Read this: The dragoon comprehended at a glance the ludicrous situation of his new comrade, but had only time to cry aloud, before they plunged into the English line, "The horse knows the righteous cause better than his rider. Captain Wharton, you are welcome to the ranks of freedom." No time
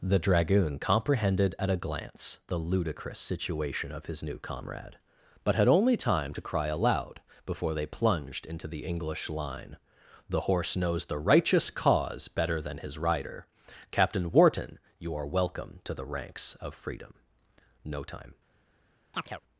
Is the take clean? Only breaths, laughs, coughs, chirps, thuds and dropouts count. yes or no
no